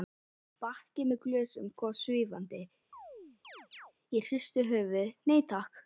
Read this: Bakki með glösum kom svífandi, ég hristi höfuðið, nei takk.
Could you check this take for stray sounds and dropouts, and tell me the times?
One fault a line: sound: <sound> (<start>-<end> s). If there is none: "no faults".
sound: chirp (2.9-3.9 s)